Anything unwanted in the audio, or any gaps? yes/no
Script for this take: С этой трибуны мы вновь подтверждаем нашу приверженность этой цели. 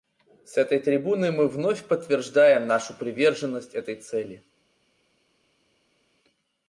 no